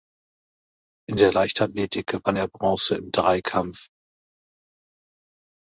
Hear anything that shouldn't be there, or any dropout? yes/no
no